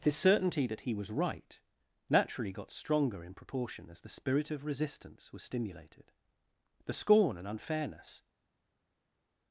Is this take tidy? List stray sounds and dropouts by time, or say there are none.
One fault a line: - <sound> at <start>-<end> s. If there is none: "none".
none